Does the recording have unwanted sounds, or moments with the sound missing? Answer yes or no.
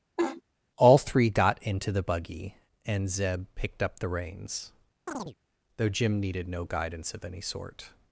yes